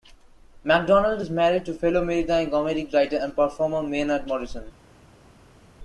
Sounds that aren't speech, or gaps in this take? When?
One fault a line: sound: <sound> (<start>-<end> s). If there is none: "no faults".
no faults